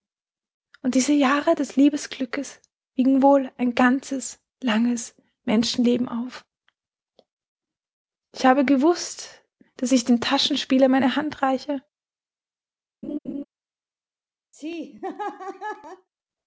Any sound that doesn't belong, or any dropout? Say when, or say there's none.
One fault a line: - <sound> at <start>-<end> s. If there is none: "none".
- laugh at 13.0-13.4 s
- laugh at 14.5-16.1 s